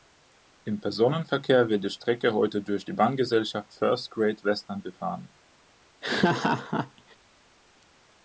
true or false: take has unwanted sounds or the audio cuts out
true